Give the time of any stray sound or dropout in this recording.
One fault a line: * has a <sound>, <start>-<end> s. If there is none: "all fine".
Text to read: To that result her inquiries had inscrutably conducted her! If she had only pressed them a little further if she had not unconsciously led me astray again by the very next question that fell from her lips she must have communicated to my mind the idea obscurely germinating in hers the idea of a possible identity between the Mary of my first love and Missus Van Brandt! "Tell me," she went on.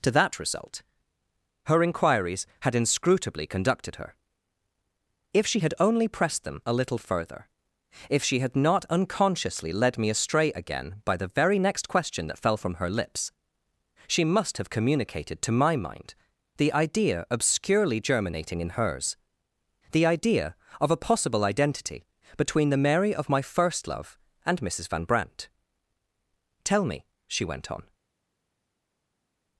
all fine